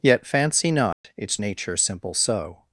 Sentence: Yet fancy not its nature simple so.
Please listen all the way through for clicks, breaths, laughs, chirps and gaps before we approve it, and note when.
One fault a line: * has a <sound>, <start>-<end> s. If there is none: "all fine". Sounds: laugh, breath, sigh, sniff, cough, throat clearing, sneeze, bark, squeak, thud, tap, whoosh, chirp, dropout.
* has a dropout, 0.9-1.0 s